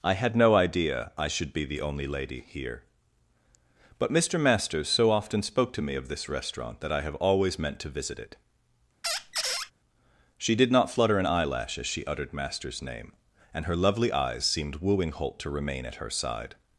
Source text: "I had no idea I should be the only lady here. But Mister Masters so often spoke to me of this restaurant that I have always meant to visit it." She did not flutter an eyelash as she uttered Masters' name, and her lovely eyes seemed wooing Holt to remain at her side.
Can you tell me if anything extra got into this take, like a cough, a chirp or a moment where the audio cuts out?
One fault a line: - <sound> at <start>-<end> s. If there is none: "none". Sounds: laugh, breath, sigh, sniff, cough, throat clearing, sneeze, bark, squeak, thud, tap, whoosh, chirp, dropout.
- squeak at 9.0-9.7 s